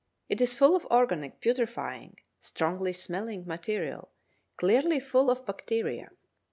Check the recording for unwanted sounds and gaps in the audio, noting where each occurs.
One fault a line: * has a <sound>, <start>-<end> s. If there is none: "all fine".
all fine